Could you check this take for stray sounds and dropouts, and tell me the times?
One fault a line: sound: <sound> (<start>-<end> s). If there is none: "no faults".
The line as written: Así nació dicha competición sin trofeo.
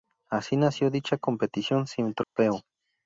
sound: dropout (2.2-2.4 s)